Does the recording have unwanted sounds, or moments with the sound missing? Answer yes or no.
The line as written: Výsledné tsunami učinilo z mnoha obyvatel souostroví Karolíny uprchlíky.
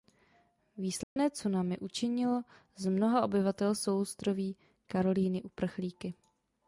yes